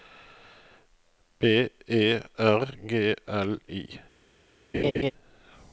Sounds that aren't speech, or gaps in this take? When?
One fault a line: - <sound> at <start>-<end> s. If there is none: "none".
- laugh at 4.7-5.1 s